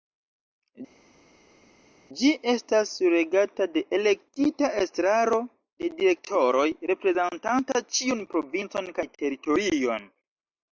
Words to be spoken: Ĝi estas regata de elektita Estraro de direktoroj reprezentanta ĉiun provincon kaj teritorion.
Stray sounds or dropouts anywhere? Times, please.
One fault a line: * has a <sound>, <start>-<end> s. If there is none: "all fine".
all fine